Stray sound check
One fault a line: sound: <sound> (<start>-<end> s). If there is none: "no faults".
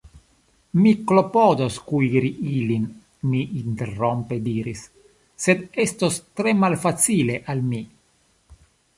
no faults